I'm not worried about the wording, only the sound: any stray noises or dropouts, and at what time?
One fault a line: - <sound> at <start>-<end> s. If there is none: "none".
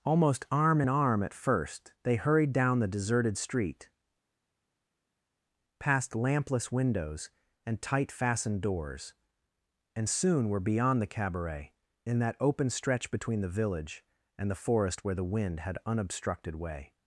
none